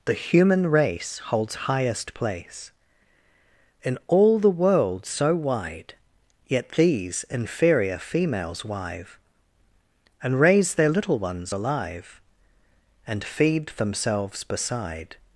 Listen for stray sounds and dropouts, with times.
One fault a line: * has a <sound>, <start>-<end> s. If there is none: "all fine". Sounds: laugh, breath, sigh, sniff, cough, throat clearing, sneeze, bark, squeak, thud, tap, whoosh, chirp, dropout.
all fine